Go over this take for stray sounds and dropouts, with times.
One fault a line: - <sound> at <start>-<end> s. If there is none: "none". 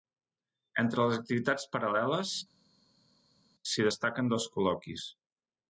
none